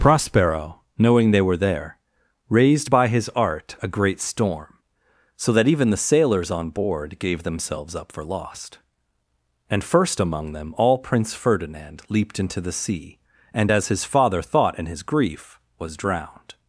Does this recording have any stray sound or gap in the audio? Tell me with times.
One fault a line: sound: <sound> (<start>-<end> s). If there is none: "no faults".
no faults